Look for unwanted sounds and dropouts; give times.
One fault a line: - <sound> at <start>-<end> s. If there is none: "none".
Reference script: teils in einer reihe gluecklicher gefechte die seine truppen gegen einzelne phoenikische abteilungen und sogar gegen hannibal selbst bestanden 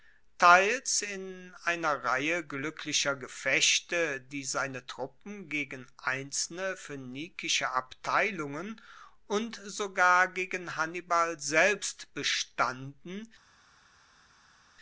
none